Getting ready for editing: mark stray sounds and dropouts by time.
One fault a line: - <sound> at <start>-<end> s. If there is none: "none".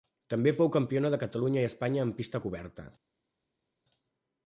none